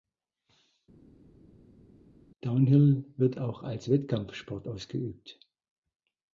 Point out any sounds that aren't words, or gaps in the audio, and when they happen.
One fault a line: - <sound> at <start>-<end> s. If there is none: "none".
none